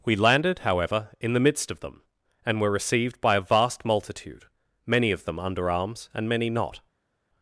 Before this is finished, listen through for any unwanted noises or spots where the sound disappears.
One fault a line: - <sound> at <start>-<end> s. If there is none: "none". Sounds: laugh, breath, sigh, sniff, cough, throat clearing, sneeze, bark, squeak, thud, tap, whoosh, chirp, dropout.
none